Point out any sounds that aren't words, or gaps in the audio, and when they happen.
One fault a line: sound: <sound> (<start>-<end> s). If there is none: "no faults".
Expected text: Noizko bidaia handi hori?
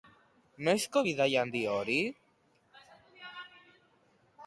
no faults